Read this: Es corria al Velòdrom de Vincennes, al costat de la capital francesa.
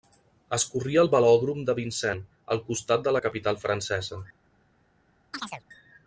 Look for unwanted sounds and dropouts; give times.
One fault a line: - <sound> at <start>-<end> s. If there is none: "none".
- chirp at 5.3-5.6 s